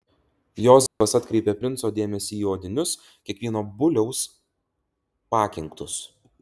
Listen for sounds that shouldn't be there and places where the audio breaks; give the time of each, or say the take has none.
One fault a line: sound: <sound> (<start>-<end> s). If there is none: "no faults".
sound: dropout (0.9-1.0 s)